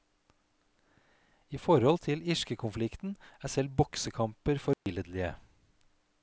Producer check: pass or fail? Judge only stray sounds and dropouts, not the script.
fail